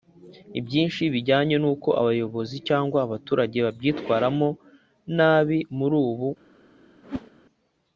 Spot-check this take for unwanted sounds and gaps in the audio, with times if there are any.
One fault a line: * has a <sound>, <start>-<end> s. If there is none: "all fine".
* has a whoosh, 7.0-7.3 s